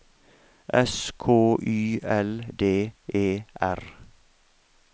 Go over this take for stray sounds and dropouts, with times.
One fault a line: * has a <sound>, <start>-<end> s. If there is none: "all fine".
all fine